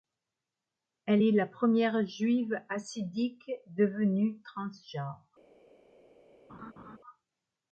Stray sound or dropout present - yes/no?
yes